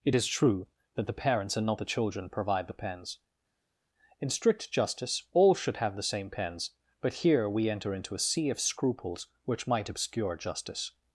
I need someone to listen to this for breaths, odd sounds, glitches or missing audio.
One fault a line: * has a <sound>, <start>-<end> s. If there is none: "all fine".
all fine